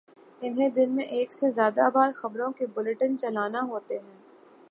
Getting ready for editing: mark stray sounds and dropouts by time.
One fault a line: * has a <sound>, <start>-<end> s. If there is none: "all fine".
all fine